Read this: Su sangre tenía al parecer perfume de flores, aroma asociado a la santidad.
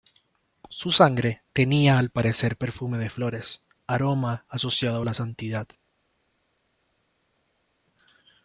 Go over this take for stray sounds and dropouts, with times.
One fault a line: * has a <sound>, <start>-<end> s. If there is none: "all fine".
all fine